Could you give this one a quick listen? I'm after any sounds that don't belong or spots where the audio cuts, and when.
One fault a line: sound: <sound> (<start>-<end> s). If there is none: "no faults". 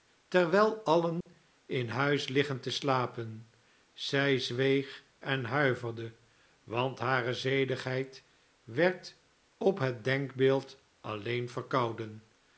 sound: dropout (1.2-1.3 s)